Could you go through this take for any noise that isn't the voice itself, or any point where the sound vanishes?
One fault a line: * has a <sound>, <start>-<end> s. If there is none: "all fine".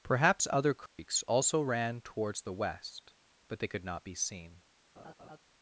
* has a dropout, 0.9-1.0 s
* has a laugh, 5.0-5.4 s